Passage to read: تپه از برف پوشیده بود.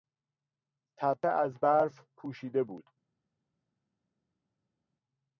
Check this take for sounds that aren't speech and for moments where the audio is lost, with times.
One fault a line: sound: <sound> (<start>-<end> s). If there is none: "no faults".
no faults